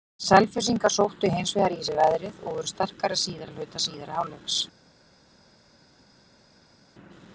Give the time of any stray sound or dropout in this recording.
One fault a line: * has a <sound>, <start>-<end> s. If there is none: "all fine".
all fine